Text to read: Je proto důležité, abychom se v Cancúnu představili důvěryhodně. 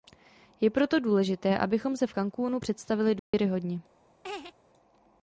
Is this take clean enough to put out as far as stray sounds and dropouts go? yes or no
no